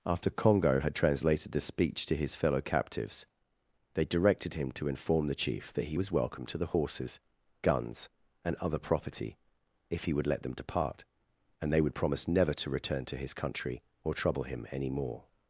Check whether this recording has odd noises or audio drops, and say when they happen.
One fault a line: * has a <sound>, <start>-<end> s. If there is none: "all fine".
all fine